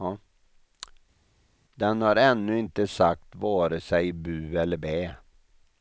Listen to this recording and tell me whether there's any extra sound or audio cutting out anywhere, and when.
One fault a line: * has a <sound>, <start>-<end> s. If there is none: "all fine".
all fine